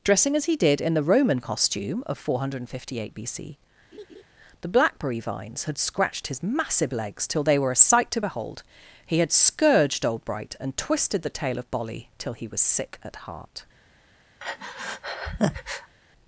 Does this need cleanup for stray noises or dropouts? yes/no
yes